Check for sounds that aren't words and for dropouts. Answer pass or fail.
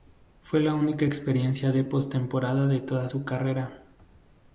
pass